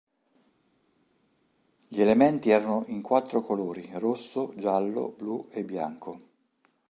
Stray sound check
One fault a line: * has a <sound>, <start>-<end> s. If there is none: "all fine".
all fine